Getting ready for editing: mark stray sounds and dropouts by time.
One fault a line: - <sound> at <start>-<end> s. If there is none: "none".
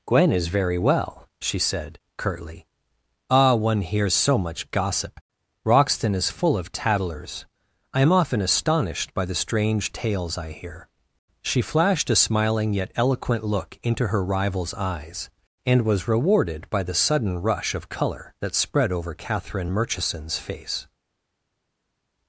none